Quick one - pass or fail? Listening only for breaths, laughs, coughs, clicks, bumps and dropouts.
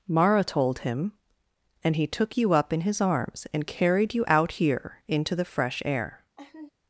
fail